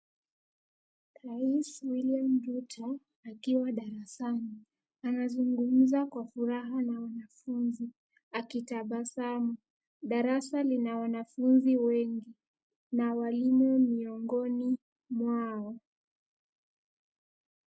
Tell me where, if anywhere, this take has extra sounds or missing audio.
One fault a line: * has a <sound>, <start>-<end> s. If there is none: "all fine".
all fine